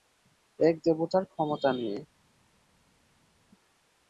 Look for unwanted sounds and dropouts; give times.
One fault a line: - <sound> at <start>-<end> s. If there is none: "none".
none